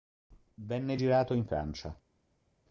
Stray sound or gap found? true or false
false